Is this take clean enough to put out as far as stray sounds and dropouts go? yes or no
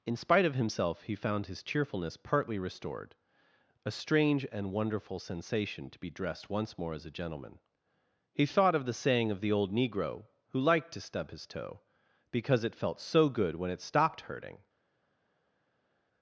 yes